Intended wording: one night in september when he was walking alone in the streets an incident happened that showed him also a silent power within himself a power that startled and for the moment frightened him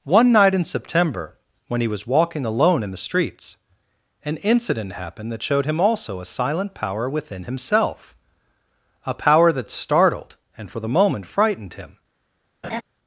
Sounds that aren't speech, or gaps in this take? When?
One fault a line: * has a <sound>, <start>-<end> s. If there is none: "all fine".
* has a laugh, 12.6-12.8 s